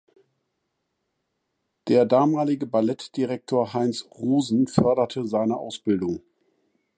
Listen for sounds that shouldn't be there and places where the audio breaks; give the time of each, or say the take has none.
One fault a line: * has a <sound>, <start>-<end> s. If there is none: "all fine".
all fine